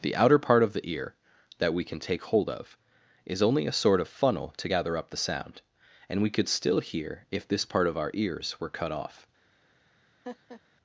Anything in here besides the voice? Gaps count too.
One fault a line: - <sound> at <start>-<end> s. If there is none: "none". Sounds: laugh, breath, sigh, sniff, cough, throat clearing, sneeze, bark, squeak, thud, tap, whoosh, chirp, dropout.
- laugh at 10.2-10.6 s